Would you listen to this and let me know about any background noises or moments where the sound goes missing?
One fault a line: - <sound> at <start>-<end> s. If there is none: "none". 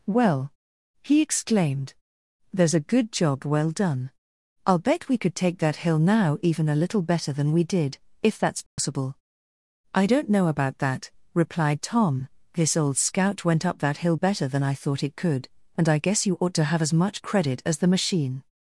- dropout at 8.7-8.8 s